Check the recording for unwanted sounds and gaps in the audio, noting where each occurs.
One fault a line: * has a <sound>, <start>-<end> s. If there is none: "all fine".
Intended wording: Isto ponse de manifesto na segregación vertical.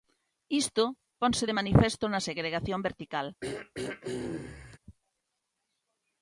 * has a throat clearing, 3.4-4.8 s